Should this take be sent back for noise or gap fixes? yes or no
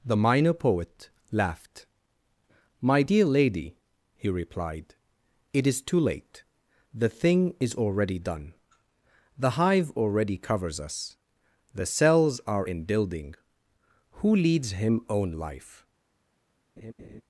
yes